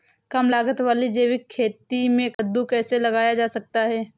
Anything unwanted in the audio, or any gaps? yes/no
yes